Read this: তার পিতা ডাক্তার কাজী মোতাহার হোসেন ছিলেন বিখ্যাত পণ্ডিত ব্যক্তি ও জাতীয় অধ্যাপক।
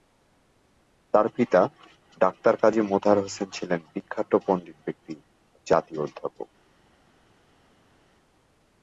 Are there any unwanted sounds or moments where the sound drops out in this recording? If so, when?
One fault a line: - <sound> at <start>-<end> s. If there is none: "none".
none